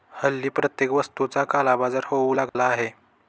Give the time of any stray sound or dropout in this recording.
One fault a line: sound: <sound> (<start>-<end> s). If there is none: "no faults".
sound: dropout (2.5-2.6 s)